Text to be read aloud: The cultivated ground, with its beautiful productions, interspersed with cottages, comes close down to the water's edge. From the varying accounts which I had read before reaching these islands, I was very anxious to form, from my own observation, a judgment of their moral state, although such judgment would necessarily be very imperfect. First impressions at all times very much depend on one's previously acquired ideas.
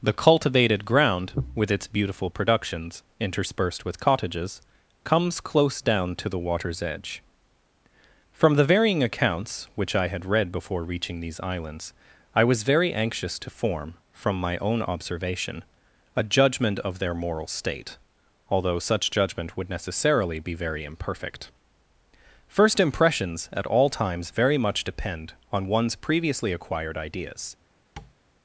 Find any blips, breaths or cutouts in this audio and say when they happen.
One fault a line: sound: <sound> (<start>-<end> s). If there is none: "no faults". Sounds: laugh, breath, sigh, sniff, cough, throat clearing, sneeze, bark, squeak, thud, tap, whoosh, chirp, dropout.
sound: tap (28.0-28.2 s)